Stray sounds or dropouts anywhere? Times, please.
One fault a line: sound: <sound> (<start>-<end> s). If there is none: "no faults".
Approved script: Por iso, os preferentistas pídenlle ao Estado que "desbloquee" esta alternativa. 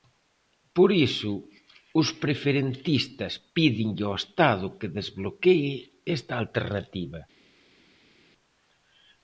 no faults